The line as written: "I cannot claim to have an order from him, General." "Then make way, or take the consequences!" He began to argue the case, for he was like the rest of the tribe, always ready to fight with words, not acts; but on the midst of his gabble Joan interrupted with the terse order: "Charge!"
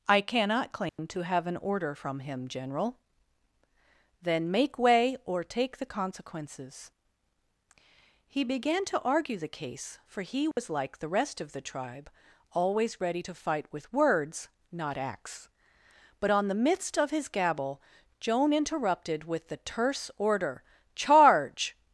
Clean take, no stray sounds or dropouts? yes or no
no